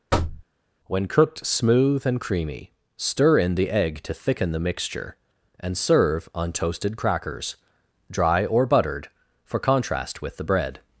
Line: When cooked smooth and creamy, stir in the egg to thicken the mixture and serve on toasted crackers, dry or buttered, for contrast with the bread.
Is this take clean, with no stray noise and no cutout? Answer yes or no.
no